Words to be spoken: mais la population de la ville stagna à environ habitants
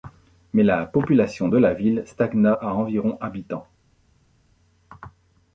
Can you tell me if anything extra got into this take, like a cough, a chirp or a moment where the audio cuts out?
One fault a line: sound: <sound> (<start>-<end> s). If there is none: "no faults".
no faults